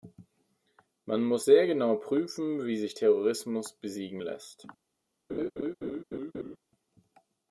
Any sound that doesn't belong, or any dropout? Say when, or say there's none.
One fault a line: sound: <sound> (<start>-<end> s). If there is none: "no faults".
sound: laugh (5.3-6.6 s)